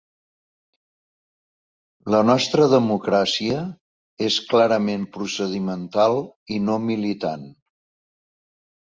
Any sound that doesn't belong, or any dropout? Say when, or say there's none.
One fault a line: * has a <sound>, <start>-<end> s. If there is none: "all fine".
all fine